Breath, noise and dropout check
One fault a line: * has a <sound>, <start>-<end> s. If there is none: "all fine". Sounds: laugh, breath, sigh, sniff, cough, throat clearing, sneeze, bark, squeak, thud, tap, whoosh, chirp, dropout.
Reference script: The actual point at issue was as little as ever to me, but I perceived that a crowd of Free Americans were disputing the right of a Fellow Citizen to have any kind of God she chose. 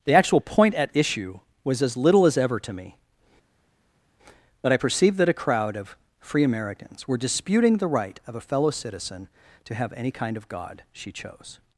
all fine